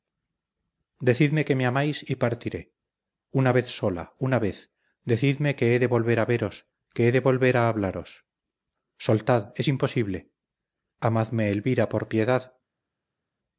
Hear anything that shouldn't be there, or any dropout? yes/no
no